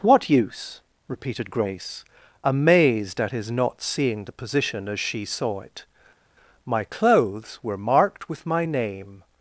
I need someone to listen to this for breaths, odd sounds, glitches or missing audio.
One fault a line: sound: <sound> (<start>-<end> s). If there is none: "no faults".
no faults